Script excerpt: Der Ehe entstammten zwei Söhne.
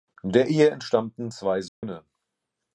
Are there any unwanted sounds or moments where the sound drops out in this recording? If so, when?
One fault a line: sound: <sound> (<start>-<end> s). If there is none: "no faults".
sound: dropout (1.7-1.8 s)